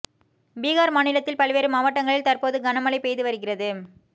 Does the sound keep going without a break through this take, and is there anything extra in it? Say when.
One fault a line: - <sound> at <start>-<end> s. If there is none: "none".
none